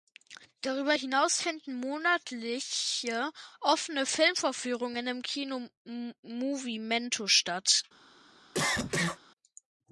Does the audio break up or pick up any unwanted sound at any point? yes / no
yes